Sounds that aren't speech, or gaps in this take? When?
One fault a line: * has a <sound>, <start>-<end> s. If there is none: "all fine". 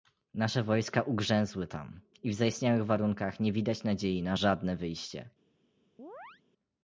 * has a chirp, 6.0-6.4 s